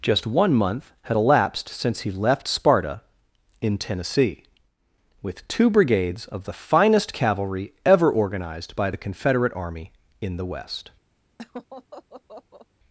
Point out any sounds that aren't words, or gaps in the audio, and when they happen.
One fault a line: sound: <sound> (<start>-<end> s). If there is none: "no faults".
sound: laugh (11.4-12.7 s)